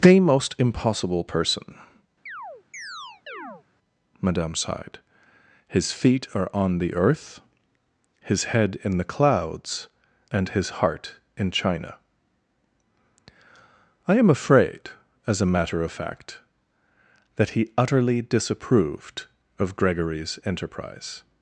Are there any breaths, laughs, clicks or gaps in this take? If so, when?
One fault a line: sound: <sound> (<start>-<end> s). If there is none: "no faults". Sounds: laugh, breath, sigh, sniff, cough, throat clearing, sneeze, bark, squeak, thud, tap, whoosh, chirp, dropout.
sound: chirp (2.3-3.6 s)